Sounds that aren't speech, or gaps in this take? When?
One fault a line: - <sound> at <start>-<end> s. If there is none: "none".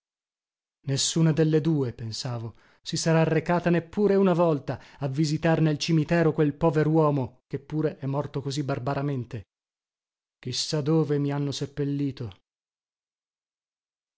none